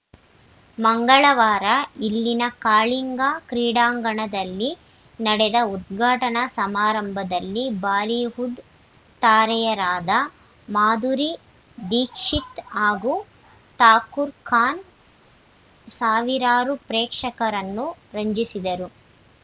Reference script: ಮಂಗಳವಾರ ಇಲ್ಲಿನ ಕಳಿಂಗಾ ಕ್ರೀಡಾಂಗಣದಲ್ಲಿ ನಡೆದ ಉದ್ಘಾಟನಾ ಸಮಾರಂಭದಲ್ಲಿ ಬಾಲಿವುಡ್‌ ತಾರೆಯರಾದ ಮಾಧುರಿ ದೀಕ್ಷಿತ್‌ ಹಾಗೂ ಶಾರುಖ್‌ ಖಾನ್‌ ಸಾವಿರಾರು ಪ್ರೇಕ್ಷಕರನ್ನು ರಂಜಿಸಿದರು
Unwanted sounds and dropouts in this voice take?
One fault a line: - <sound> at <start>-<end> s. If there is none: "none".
none